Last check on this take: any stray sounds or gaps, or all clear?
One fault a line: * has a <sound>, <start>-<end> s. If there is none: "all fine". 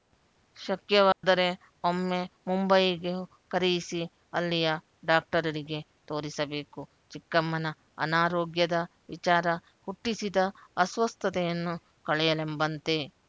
* has a dropout, 1.1-1.2 s